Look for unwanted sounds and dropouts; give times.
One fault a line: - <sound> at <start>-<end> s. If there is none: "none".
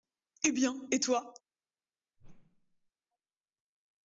- whoosh at 2.2-2.9 s